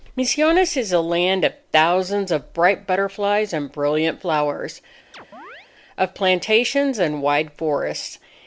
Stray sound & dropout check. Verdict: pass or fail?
fail